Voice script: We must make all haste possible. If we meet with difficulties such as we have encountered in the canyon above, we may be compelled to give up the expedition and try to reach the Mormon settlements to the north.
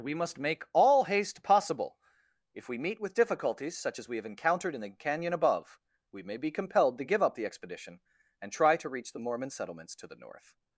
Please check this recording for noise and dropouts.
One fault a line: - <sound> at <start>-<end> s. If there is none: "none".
none